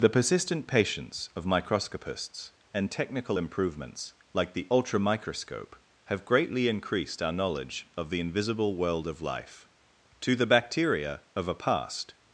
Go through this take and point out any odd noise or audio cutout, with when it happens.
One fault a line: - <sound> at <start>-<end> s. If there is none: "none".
none